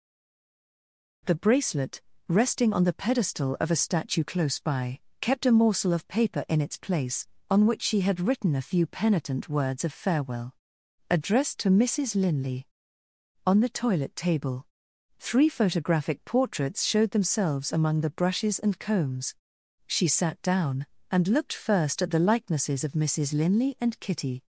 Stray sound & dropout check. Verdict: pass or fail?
pass